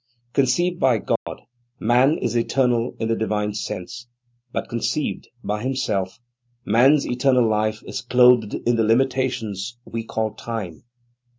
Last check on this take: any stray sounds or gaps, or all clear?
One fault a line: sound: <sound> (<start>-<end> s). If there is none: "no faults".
sound: dropout (1.2-1.3 s)